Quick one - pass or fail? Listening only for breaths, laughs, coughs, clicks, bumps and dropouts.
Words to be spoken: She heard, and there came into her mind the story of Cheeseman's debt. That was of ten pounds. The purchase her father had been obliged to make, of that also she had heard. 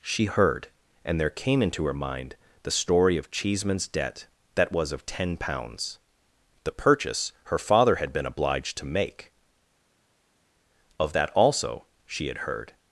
pass